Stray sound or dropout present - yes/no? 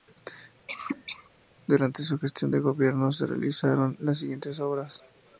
yes